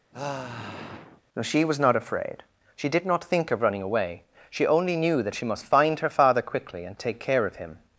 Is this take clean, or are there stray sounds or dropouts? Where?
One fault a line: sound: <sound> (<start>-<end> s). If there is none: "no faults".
sound: sigh (0.1-1.2 s)